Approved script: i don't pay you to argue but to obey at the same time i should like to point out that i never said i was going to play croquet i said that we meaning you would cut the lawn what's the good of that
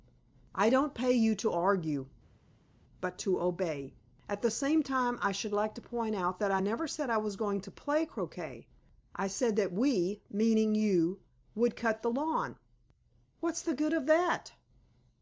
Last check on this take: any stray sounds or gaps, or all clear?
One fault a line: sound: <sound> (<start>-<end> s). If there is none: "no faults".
no faults